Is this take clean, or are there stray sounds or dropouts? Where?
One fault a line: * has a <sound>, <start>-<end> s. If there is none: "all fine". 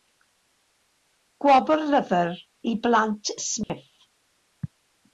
* has a dropout, 3.6-3.7 s